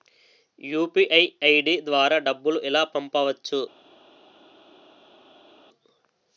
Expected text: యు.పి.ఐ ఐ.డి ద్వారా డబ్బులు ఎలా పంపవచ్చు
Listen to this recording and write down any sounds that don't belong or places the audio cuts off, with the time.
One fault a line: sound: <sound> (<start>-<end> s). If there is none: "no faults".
no faults